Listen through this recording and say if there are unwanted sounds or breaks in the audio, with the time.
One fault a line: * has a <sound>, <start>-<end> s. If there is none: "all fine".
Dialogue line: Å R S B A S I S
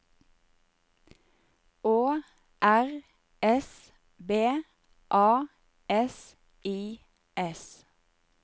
all fine